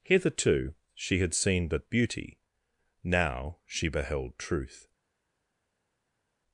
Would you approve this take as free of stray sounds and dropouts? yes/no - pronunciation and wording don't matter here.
yes